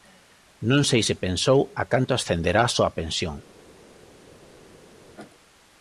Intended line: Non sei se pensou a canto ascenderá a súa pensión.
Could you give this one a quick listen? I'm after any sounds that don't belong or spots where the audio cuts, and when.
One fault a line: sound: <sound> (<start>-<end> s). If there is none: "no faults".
no faults